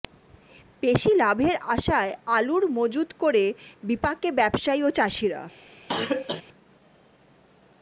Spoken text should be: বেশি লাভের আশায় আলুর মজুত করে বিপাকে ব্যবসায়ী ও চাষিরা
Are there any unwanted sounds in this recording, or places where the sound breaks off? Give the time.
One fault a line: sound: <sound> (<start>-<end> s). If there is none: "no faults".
sound: cough (5.9-6.4 s)